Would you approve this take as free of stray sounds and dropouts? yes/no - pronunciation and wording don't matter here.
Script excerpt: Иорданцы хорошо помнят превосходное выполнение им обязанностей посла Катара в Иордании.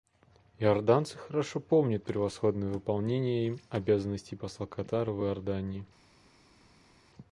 yes